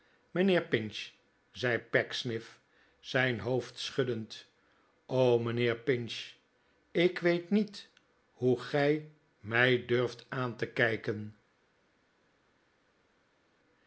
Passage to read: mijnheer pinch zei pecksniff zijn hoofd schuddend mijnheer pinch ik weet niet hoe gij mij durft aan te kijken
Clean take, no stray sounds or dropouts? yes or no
yes